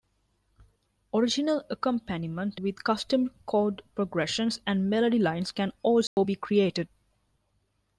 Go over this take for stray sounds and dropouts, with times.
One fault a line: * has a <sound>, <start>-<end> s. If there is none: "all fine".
* has a dropout, 6.1-6.2 s